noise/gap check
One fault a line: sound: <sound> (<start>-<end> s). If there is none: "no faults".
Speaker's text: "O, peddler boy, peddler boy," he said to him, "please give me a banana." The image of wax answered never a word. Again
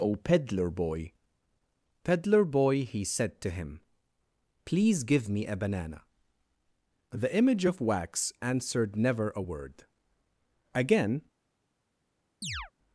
sound: chirp (12.4-12.7 s)